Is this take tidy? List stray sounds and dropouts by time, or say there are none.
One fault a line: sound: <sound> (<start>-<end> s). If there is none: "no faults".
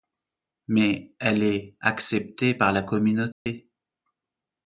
sound: dropout (3.3-3.5 s)